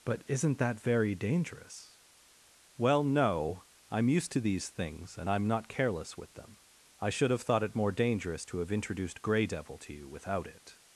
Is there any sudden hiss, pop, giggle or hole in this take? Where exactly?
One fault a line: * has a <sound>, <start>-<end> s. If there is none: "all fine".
all fine